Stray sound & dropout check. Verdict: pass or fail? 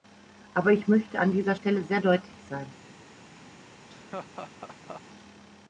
fail